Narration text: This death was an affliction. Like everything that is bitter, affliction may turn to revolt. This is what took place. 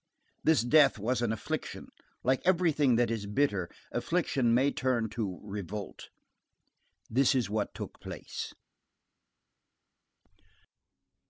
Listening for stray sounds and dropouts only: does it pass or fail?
pass